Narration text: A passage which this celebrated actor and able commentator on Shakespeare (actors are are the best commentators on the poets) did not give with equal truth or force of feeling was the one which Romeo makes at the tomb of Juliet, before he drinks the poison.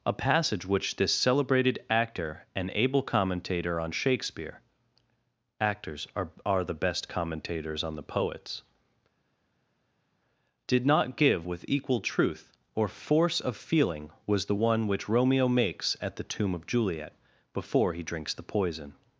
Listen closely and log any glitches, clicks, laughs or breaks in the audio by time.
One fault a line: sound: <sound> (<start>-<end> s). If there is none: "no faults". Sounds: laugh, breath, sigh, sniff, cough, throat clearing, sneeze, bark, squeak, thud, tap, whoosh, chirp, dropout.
no faults